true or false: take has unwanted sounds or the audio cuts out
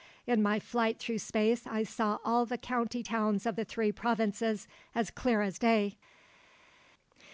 false